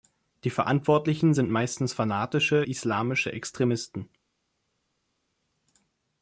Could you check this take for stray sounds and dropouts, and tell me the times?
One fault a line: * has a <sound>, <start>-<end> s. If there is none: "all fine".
all fine